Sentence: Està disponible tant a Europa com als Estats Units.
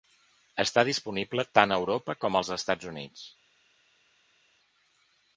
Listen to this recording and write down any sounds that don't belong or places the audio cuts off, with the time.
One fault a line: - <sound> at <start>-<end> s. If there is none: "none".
none